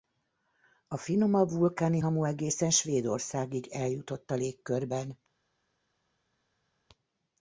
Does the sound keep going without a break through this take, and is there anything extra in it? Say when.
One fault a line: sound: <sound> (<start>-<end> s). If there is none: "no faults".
no faults